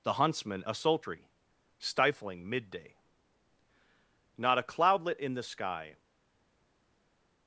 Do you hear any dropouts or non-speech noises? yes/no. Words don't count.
no